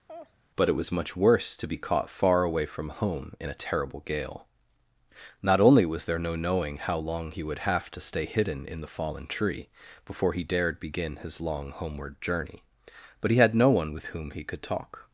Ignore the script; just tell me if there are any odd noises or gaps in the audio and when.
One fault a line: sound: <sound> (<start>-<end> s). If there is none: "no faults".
sound: laugh (0.1-0.4 s)